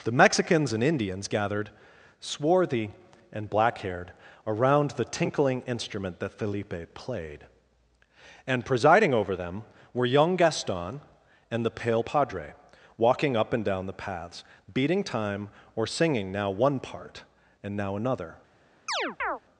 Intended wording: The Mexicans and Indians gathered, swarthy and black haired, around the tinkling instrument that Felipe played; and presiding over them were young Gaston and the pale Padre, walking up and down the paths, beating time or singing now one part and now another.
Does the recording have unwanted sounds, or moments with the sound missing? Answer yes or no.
yes